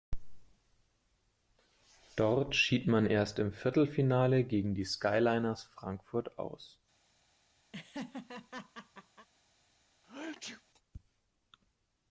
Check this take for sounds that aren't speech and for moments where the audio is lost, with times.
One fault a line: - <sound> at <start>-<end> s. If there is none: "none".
- laugh at 7.7-9.3 s
- sneeze at 10.0-10.6 s